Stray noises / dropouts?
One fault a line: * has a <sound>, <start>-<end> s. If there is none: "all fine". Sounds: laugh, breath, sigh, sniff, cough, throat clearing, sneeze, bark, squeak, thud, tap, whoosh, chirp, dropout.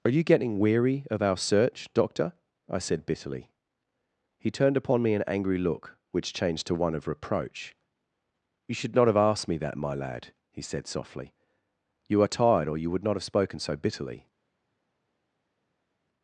all fine